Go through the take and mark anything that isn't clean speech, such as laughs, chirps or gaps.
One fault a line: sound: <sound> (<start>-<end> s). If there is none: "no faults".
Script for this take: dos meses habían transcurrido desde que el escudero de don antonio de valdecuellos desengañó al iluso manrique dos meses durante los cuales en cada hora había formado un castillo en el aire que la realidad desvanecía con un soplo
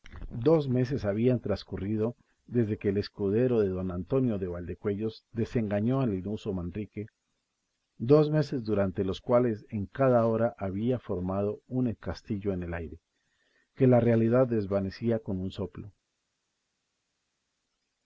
no faults